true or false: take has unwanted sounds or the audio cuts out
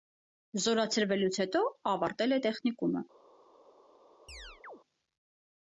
true